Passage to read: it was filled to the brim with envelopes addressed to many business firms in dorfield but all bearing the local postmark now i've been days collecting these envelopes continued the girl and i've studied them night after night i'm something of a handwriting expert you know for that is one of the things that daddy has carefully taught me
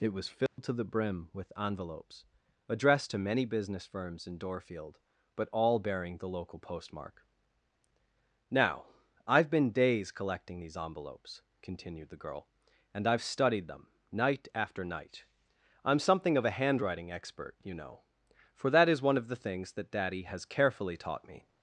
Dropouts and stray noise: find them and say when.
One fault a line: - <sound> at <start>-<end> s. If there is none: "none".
- dropout at 0.5-0.6 s